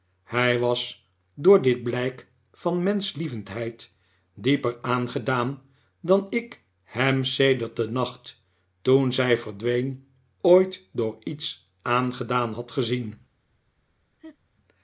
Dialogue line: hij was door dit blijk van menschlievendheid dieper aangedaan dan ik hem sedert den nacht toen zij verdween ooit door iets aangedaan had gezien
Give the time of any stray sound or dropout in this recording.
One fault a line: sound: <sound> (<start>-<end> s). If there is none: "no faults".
sound: laugh (14.2-14.4 s)